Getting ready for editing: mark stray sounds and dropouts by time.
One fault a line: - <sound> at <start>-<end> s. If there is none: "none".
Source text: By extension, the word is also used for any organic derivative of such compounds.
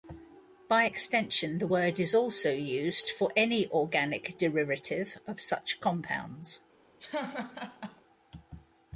- laugh at 7.0-8.0 s